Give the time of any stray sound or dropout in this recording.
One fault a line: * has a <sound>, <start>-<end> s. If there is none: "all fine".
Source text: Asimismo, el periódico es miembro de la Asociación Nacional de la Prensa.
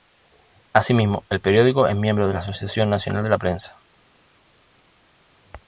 all fine